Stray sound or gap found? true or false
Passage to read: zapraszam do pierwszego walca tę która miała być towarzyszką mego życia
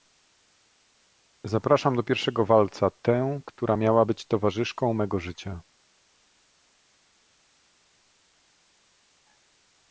false